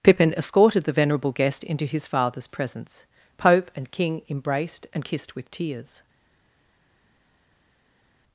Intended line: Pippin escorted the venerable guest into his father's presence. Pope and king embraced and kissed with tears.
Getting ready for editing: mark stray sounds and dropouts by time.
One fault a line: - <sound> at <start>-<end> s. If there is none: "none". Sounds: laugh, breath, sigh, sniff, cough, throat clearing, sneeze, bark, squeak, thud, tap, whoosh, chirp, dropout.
none